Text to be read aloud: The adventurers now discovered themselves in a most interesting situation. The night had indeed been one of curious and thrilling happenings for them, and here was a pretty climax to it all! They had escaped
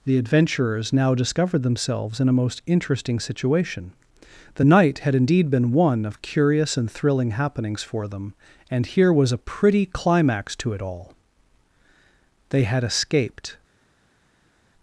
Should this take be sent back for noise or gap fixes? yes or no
no